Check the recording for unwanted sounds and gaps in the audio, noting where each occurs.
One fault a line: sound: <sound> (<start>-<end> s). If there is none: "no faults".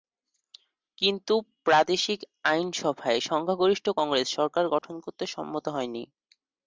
sound: dropout (4.8-4.8 s)